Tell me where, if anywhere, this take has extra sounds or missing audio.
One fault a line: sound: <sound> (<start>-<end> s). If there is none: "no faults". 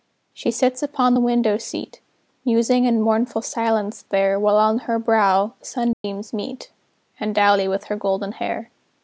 sound: dropout (5.9-6.0 s)